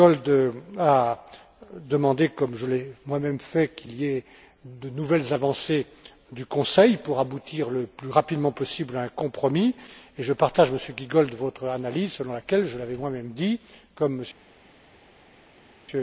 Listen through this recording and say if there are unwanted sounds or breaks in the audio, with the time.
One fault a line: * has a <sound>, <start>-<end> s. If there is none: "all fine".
all fine